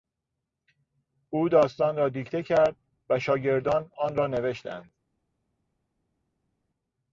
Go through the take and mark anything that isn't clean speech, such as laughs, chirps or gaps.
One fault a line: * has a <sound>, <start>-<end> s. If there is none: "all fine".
all fine